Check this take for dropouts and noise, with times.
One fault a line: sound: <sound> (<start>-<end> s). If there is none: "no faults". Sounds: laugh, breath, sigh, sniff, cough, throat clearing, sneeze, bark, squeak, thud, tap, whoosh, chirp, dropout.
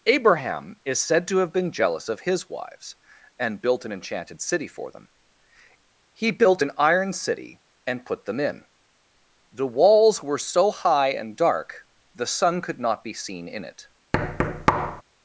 sound: thud (14.1-15.0 s)